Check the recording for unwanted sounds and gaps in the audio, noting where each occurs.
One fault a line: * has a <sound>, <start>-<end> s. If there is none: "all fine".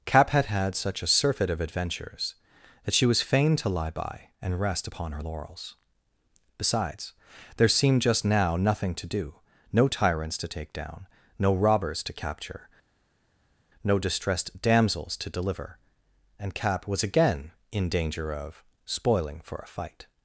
all fine